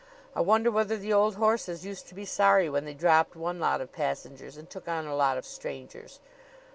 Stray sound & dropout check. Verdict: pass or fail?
pass